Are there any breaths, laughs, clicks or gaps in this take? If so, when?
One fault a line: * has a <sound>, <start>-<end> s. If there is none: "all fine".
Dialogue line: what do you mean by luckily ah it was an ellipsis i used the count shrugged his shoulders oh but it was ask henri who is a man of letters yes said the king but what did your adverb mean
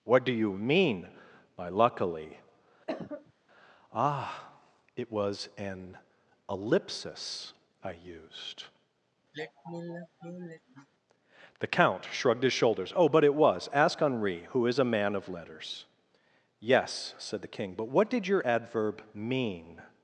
* has a cough, 2.9-3.3 s
* has a sigh, 9.3-10.9 s